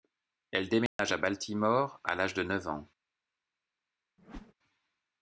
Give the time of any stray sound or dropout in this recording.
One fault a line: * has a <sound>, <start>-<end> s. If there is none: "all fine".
* has a dropout, 0.9-1.0 s
* has a whoosh, 4.2-4.5 s